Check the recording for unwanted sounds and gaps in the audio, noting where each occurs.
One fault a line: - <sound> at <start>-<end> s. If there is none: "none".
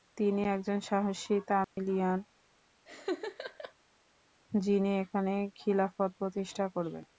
- dropout at 1.6-1.8 s
- laugh at 2.9-3.7 s